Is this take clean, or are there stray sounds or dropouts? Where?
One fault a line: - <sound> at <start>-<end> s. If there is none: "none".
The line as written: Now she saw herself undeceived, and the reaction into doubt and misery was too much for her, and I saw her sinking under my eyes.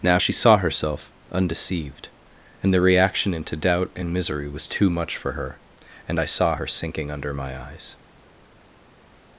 none